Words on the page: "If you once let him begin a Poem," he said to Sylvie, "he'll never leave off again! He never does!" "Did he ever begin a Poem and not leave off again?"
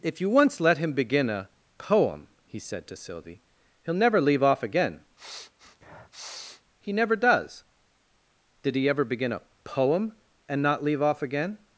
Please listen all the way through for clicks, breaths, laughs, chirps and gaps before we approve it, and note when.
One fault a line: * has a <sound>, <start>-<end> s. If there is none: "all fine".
* has a sniff, 5.2-6.6 s